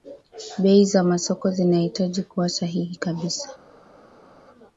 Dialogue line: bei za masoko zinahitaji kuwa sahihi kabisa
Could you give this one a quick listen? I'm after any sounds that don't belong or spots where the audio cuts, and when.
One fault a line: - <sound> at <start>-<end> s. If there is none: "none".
none